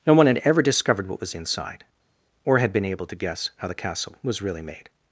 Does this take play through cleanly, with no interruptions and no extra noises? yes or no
yes